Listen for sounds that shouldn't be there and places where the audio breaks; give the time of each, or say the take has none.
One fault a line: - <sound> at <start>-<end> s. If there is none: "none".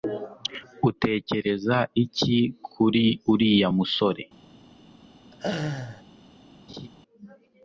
- laugh at 5.3-6.0 s
- laugh at 6.7-6.9 s